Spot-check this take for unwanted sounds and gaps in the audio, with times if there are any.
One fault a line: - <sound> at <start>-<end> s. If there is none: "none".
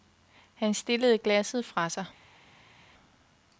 none